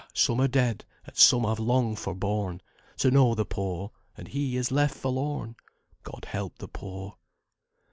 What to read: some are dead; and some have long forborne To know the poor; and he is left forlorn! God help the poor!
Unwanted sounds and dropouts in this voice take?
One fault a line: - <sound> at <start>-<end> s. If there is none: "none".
none